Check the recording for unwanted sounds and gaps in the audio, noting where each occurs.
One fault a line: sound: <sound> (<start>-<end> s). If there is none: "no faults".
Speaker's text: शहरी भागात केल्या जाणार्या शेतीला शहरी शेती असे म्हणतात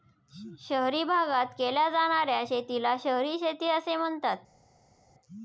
no faults